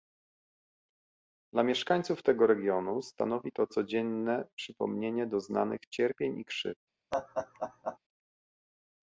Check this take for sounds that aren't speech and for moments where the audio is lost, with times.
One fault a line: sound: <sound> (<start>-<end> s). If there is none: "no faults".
sound: laugh (7.1-8.0 s)